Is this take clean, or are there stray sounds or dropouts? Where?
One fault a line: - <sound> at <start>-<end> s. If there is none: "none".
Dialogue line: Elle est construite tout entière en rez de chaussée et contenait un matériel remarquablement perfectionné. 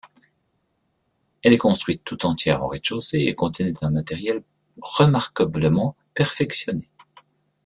none